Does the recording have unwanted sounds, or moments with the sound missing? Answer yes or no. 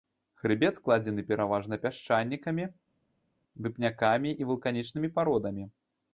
no